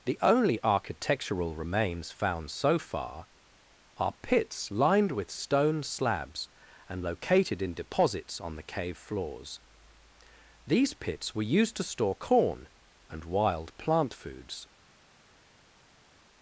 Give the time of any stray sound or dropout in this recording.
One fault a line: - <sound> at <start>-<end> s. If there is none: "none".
none